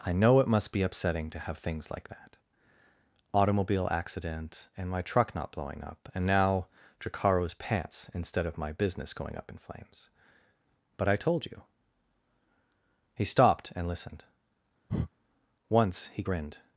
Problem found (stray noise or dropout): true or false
true